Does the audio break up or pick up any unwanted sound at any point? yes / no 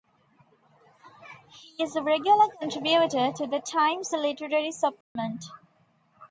yes